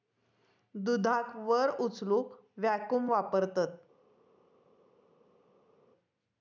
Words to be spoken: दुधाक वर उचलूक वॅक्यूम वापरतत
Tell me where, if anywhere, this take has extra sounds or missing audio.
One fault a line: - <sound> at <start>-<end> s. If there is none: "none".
none